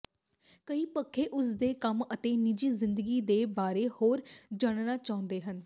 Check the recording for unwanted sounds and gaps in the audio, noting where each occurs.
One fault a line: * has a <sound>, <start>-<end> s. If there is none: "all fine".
all fine